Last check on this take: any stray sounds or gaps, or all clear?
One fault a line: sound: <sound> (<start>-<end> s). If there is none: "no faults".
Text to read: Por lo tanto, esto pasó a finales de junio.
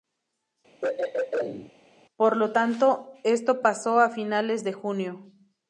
sound: throat clearing (0.8-1.7 s)